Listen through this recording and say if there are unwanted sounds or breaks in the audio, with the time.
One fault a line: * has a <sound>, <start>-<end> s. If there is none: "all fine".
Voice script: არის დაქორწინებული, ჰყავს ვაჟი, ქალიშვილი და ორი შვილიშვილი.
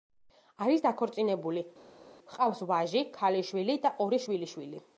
all fine